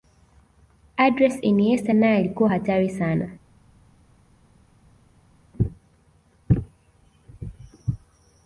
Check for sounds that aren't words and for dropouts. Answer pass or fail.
pass